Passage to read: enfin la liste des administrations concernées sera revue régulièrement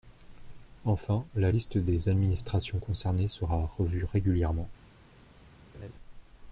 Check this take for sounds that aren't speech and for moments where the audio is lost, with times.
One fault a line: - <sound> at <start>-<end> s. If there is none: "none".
- laugh at 5.7-5.9 s